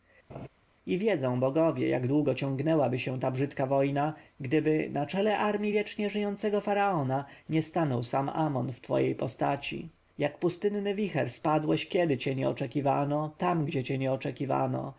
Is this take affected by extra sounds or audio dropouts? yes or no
yes